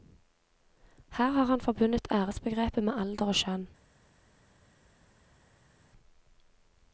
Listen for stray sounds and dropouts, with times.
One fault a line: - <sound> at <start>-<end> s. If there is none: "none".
none